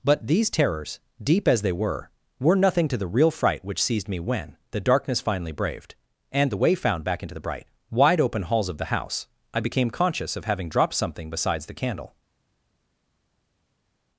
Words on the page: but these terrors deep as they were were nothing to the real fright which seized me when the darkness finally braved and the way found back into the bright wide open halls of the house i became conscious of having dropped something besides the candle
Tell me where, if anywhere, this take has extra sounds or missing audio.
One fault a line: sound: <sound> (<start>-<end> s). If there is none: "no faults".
no faults